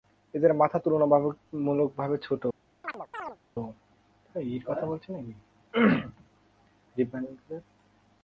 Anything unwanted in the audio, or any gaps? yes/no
yes